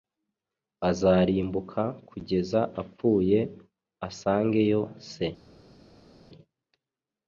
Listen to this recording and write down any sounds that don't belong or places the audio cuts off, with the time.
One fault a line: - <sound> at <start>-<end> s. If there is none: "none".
none